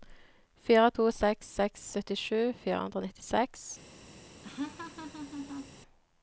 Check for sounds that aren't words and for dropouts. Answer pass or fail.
fail